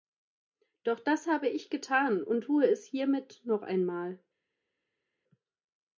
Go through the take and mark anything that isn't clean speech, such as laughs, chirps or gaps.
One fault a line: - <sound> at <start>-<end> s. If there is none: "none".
none